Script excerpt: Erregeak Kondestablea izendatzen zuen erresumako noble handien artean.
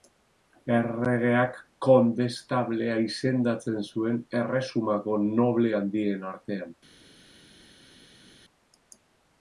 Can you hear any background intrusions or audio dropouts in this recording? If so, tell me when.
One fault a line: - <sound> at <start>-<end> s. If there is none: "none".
none